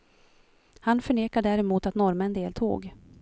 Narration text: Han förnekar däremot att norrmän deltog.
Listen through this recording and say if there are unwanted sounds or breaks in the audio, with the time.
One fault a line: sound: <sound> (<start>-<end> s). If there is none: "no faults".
no faults